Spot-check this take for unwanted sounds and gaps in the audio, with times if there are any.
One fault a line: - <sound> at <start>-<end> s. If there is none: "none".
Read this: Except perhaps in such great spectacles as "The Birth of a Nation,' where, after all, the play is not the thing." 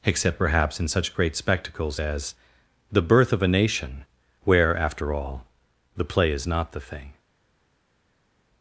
none